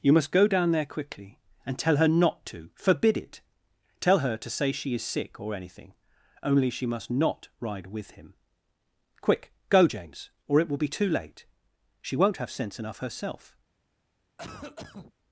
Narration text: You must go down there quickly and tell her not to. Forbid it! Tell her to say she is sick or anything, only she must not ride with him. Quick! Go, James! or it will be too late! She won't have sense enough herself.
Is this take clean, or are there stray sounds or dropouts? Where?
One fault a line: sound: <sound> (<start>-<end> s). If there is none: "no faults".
sound: cough (14.4-15.1 s)